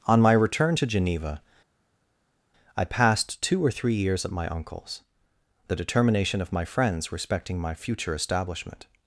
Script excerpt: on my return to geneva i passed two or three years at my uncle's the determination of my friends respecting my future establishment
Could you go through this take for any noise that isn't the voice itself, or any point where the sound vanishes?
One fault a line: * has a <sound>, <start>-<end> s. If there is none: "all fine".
all fine